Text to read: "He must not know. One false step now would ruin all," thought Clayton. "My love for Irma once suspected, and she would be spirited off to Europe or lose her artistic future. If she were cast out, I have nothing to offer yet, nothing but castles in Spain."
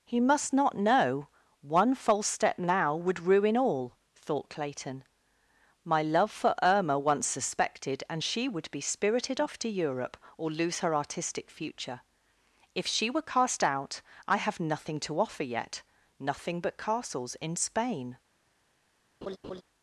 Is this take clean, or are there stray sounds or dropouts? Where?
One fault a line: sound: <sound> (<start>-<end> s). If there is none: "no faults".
sound: laugh (19.2-19.6 s)